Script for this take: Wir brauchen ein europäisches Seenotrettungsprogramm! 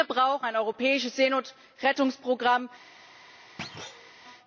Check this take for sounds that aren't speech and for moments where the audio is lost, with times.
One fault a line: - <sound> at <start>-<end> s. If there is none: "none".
- thud at 3.6-4.2 s